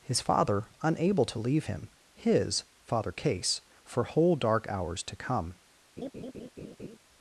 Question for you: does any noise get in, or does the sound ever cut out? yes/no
yes